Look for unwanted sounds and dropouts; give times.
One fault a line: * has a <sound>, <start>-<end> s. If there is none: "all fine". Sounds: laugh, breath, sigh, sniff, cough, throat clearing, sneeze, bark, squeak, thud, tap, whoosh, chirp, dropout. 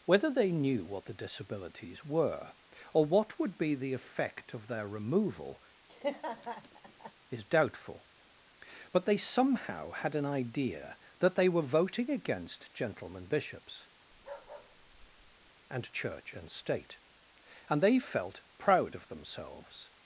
* has a laugh, 5.9-7.1 s
* has a bark, 14.1-15.5 s